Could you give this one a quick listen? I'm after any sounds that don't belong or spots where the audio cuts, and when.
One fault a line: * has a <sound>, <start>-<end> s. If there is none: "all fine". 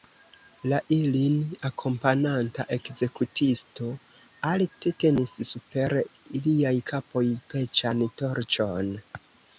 all fine